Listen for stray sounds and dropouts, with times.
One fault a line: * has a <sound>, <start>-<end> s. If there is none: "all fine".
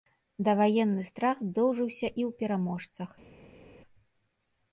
all fine